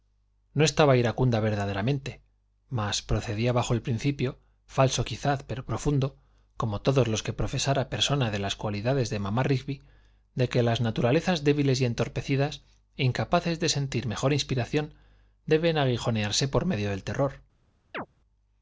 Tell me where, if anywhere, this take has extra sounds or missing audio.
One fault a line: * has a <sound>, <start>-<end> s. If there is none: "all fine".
* has a chirp, 17.9-18.1 s